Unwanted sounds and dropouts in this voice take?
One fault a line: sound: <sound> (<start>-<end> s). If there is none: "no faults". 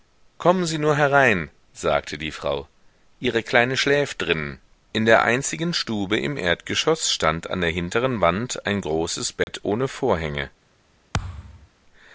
sound: dropout (9.4-9.5 s)
sound: thud (11.1-11.7 s)